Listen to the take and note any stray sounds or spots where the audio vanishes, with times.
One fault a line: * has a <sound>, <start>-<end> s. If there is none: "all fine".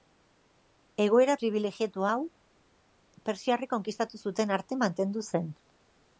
all fine